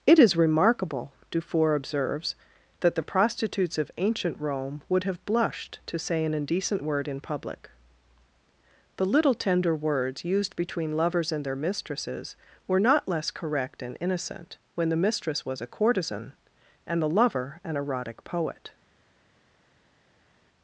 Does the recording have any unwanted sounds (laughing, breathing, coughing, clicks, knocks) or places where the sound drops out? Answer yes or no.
no